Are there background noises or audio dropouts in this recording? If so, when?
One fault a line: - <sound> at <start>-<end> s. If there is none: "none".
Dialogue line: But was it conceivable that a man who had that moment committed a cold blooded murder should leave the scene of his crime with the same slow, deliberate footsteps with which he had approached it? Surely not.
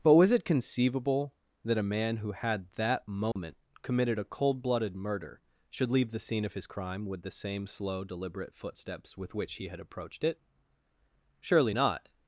- dropout at 3.3-3.4 s